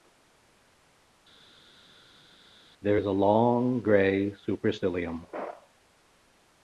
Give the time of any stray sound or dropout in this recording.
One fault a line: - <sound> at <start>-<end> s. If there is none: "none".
none